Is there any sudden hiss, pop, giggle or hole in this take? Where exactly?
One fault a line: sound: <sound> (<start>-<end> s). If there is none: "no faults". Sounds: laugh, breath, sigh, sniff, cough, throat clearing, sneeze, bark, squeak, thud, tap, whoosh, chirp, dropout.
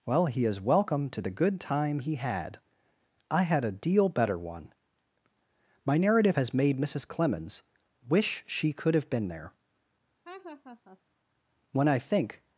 sound: laugh (10.2-11.0 s)